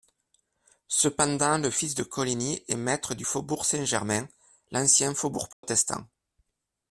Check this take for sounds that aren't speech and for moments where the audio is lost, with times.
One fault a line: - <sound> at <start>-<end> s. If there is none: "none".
- dropout at 5.5-5.6 s